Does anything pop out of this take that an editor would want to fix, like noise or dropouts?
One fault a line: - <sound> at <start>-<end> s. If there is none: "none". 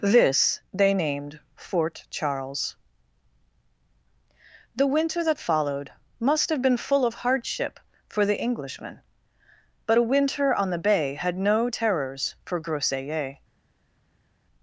none